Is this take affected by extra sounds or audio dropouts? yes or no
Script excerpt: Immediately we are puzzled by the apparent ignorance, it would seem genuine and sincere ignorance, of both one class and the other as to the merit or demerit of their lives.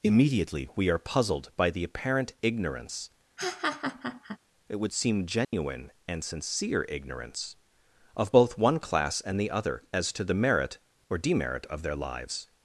yes